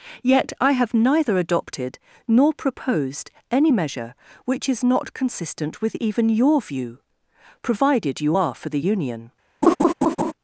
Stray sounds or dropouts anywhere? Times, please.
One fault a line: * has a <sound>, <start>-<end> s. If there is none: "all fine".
* has a laugh, 9.6-10.3 s